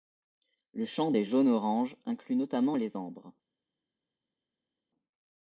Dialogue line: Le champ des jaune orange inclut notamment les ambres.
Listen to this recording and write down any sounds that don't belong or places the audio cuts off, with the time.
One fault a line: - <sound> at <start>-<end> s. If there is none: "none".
none